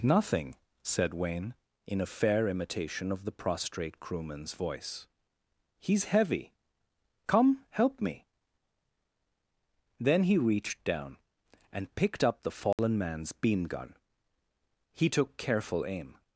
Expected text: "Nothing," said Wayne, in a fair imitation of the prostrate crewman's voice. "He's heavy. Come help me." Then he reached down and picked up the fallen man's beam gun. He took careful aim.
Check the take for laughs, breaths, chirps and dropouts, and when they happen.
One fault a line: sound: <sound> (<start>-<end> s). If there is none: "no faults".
sound: dropout (12.7-12.8 s)